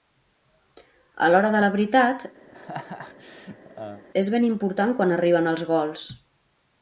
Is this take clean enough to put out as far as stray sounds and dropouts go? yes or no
no